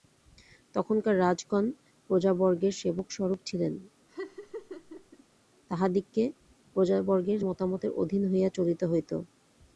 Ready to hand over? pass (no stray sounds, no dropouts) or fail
fail